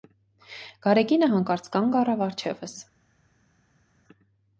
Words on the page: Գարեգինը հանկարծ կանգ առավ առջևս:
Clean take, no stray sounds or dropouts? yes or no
yes